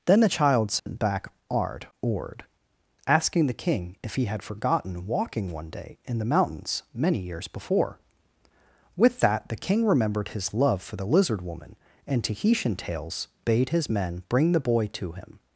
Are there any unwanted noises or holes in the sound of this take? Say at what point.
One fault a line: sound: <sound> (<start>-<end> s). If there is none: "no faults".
sound: dropout (0.8-0.9 s)